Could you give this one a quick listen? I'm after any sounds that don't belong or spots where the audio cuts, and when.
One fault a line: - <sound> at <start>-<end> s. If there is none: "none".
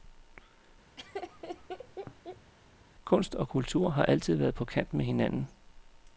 - laugh at 1.0-2.5 s